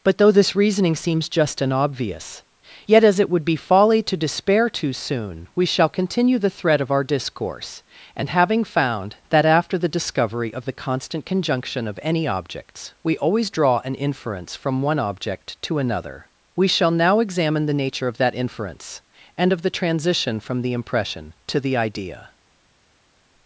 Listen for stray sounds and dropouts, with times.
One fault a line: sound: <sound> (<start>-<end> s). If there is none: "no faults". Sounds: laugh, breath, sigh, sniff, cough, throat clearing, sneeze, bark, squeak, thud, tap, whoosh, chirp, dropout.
no faults